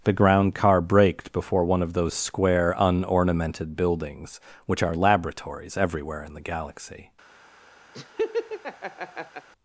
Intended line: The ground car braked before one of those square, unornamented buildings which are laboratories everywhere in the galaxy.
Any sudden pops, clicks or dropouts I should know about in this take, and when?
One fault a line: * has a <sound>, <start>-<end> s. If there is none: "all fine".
* has a laugh, 7.9-9.5 s